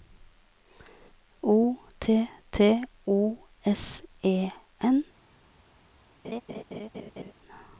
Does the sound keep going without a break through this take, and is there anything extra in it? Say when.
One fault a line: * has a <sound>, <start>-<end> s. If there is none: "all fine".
* has a laugh, 6.2-7.3 s